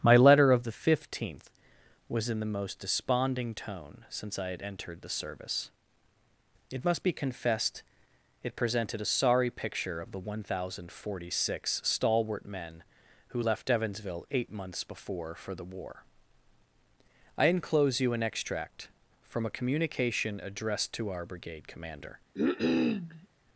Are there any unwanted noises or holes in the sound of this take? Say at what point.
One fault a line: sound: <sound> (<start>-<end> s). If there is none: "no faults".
sound: cough (22.3-23.3 s)